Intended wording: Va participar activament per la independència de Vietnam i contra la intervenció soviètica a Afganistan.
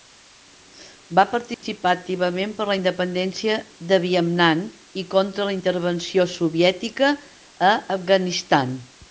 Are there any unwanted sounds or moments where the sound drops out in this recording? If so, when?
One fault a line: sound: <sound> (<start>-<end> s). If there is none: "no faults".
sound: dropout (1.5-1.6 s)